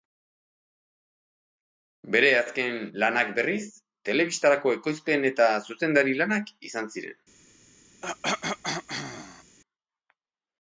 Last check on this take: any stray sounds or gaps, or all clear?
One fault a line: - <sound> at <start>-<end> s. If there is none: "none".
- cough at 8.0-9.6 s